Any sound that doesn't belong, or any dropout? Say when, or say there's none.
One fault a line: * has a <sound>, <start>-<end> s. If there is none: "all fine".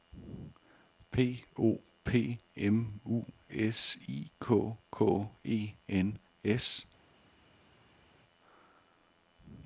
all fine